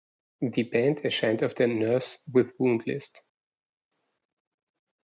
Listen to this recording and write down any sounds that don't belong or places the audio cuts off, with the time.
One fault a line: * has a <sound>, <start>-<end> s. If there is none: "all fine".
all fine